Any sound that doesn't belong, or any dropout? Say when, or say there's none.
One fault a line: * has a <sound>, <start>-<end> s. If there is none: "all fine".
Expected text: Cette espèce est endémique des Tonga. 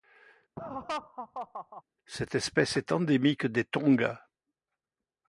* has a laugh, 0.6-1.8 s